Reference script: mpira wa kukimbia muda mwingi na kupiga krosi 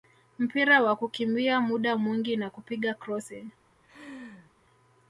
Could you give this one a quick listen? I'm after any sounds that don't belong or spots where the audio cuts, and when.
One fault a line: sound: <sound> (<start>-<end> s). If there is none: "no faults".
sound: laugh (3.8-4.5 s)